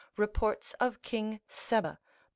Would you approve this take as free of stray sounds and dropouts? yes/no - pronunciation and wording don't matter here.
yes